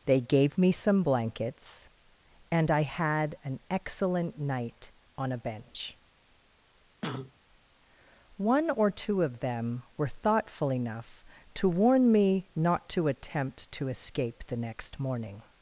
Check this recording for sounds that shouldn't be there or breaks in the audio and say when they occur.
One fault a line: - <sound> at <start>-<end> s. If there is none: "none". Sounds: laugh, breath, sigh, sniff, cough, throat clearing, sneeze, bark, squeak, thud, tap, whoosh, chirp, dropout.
- cough at 7.0-7.3 s